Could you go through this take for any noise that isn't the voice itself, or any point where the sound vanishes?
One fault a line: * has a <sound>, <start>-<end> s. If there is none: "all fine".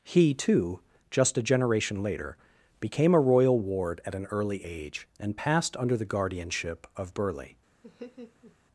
* has a laugh, 7.8-8.6 s